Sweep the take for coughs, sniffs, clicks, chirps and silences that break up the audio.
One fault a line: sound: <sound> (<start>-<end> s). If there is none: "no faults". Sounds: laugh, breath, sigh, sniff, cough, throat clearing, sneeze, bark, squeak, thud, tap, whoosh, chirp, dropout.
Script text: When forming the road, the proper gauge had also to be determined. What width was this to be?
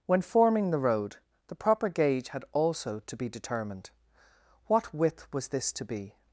no faults